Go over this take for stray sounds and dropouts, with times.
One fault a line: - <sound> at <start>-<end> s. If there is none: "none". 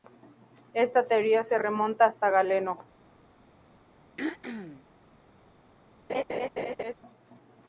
- throat clearing at 4.2-4.8 s
- laugh at 6.1-6.9 s